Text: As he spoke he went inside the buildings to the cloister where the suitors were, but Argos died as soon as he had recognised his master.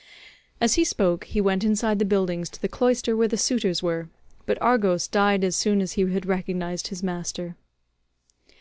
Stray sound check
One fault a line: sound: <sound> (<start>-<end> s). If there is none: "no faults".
no faults